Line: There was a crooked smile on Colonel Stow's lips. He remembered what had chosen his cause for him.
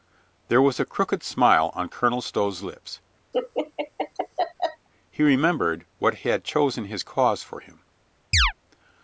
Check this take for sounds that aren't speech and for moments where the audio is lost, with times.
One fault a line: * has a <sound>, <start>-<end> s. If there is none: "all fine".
* has a laugh, 3.3-4.9 s
* has a chirp, 8.3-8.5 s